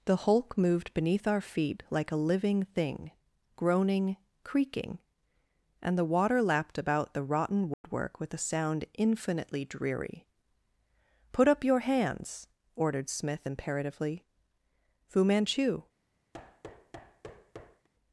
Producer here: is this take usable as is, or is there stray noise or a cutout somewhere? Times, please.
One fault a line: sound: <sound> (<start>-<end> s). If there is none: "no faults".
sound: dropout (7.7-7.8 s)
sound: thud (16.3-17.9 s)